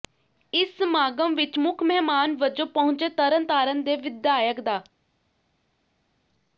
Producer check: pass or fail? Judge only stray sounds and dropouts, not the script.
pass